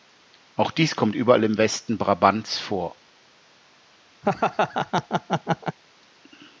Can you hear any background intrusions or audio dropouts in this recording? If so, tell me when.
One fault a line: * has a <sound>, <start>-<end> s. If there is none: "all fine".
* has a laugh, 4.2-5.8 s